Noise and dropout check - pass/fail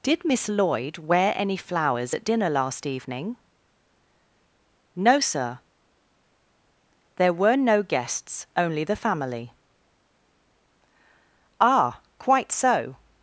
pass